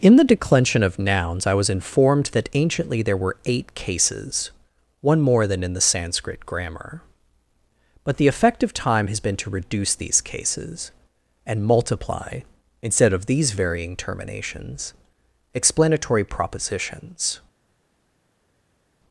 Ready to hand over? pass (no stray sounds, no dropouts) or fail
pass